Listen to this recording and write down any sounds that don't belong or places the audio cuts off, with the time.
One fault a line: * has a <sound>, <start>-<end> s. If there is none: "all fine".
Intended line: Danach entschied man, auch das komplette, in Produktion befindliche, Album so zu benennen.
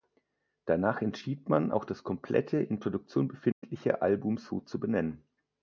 * has a dropout, 3.5-3.6 s